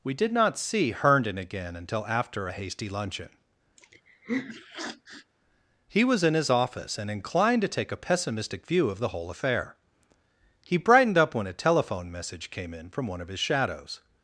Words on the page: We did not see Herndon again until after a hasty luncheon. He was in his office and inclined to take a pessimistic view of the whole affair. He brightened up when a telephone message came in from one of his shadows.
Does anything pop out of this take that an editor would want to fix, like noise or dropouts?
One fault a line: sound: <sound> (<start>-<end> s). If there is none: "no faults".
sound: sniff (3.8-5.3 s)